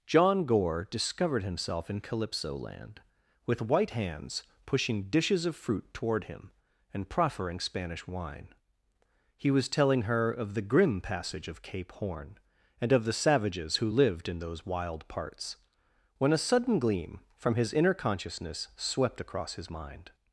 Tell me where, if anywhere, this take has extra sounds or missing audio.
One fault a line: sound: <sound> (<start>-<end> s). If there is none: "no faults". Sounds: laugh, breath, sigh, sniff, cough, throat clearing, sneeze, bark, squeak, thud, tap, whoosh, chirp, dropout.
no faults